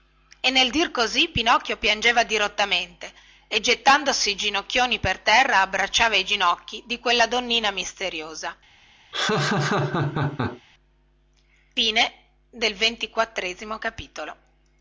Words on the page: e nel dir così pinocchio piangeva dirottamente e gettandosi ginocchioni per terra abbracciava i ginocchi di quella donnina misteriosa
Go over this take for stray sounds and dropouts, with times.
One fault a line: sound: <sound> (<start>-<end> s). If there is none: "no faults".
sound: laugh (9.1-10.6 s)